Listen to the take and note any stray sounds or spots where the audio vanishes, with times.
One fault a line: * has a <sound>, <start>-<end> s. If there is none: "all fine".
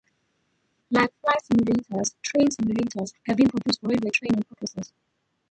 all fine